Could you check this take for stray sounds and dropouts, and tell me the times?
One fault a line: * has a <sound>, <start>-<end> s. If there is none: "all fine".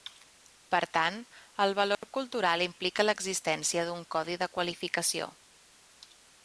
* has a dropout, 1.9-2.0 s